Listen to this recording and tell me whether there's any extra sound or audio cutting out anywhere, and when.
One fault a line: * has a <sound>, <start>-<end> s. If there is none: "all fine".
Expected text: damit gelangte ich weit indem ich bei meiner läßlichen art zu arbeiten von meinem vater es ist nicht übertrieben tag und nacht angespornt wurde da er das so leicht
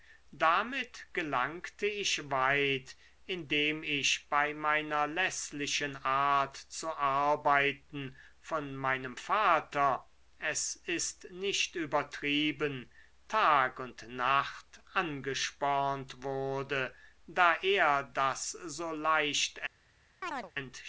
* has a chirp, 20.2-20.5 s